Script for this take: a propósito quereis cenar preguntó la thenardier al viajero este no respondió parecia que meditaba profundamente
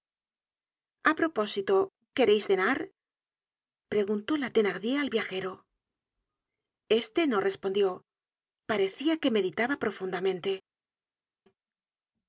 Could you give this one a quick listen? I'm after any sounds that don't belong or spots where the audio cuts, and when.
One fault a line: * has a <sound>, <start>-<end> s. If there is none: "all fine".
all fine